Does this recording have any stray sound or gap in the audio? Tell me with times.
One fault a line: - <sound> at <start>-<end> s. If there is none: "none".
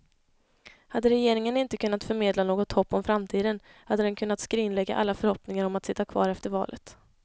none